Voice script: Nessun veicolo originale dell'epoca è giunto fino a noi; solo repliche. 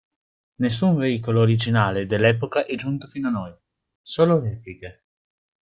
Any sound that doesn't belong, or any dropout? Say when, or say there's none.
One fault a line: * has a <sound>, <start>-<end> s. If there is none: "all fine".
all fine